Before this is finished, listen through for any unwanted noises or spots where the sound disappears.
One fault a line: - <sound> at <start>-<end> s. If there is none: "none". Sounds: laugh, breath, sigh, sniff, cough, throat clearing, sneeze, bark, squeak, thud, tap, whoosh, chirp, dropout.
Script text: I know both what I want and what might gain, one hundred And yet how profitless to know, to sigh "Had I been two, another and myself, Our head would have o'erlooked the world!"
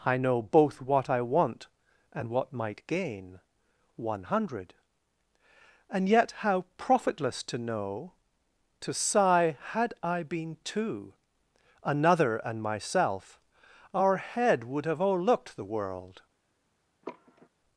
- sigh at 17.0-17.5 s